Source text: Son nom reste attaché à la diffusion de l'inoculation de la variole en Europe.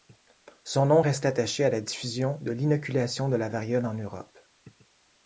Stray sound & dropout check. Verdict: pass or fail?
pass